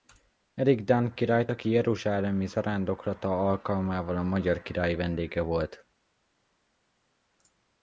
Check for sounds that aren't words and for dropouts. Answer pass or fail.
pass